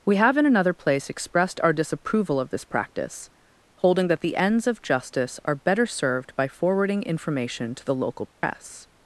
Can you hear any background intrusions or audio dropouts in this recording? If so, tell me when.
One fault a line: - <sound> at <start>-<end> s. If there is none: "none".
- dropout at 8.3-8.4 s